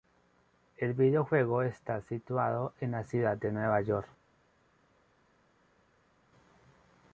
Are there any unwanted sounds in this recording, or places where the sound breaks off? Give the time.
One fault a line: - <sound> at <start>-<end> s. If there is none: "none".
none